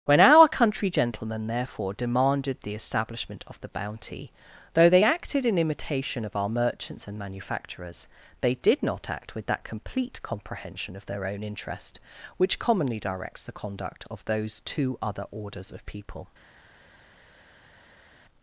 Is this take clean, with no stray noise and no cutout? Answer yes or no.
yes